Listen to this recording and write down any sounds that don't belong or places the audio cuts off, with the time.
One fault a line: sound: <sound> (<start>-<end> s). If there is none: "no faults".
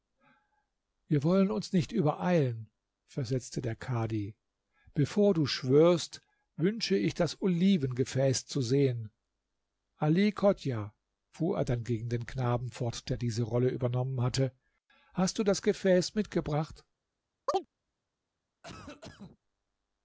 sound: chirp (17.5-17.7 s)
sound: cough (18.6-19.4 s)